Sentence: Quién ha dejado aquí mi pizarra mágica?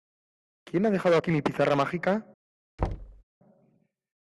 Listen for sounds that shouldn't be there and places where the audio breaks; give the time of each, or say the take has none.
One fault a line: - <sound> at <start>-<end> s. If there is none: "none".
- thud at 2.8-3.2 s